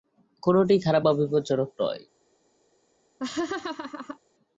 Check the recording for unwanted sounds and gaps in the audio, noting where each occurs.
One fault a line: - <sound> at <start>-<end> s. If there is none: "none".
- laugh at 3.2-4.2 s